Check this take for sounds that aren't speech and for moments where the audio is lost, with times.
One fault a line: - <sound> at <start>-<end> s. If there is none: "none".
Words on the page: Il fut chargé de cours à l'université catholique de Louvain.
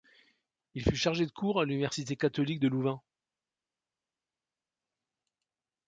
none